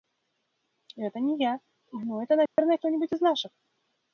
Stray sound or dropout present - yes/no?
yes